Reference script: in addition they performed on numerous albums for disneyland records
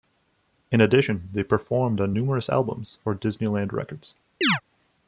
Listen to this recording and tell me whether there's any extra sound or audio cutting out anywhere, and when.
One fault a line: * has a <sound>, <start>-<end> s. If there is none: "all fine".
* has a chirp, 4.4-4.6 s